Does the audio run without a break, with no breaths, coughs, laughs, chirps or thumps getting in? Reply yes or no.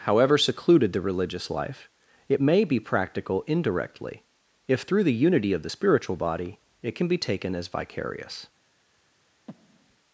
no